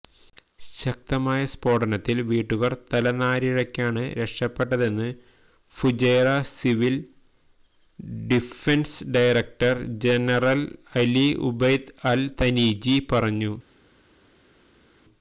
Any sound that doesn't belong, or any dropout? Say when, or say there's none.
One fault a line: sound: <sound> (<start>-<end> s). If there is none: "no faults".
no faults